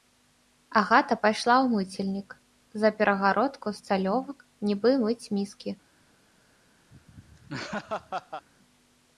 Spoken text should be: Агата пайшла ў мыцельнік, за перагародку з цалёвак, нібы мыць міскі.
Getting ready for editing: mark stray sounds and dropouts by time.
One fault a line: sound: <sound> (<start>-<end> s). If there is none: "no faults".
sound: laugh (6.9-8.5 s)